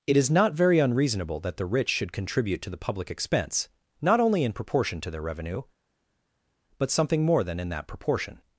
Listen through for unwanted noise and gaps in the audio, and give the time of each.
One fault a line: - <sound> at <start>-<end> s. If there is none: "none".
none